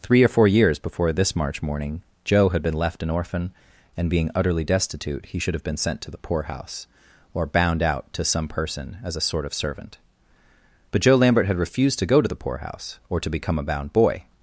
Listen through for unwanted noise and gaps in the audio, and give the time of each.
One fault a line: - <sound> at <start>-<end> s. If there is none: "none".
none